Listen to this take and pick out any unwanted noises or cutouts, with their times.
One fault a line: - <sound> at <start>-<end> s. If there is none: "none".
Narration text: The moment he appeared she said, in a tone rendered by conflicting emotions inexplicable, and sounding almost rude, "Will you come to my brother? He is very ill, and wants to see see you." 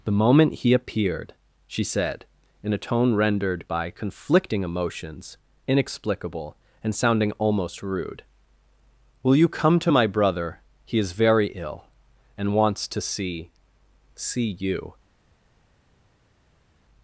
none